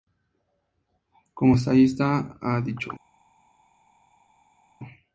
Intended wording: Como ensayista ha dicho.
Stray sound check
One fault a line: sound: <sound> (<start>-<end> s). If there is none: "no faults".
no faults